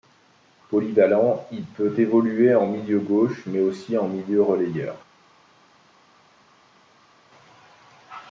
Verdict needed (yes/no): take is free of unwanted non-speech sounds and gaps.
yes